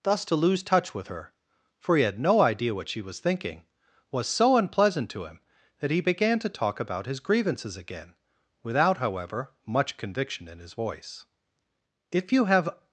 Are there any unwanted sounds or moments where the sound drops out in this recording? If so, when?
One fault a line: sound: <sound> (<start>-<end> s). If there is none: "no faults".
no faults